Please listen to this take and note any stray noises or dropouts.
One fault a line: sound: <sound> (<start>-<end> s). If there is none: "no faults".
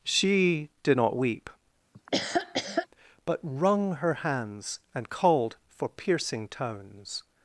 sound: laugh (1.9-2.9 s)